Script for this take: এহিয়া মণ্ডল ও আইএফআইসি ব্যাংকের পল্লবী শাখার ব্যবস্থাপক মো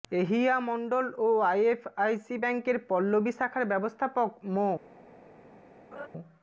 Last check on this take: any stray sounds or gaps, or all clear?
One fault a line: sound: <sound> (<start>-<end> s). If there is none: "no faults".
sound: laugh (5.9-6.1 s)